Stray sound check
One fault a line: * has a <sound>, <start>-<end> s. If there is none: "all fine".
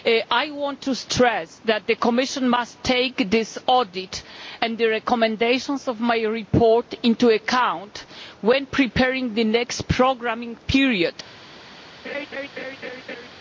* has a laugh, 12.0-13.3 s